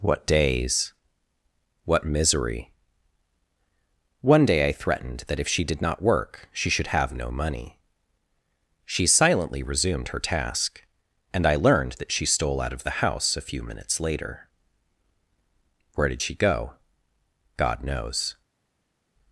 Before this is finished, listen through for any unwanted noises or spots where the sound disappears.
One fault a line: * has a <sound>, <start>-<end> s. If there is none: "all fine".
all fine